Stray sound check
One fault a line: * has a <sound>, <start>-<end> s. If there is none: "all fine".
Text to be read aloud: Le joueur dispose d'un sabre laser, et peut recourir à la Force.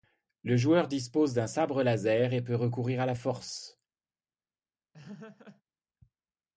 * has a laugh, 4.9-5.6 s